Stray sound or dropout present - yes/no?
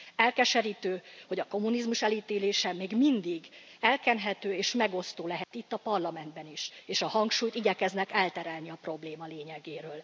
yes